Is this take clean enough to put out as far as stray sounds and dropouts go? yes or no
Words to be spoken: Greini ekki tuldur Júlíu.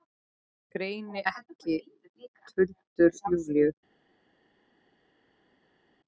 yes